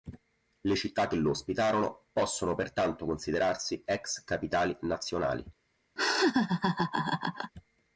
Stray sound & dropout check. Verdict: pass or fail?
fail